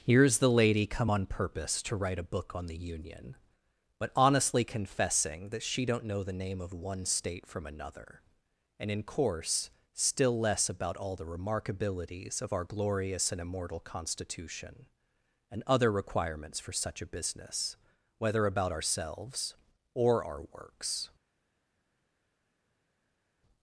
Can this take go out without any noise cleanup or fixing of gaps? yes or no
yes